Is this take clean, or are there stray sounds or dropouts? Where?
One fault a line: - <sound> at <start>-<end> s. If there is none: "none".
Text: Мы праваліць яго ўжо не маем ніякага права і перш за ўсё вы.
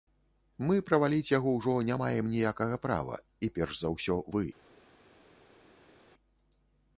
none